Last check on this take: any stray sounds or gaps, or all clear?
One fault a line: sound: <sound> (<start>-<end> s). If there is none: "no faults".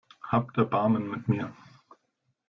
no faults